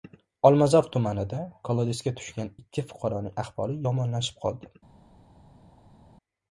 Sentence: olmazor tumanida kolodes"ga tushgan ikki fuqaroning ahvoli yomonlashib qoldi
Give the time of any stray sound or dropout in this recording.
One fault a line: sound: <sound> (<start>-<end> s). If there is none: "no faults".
no faults